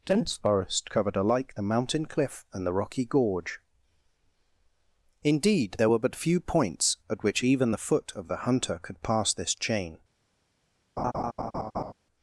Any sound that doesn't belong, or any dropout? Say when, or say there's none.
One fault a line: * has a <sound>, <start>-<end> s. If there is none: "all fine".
* has a laugh, 11.0-11.9 s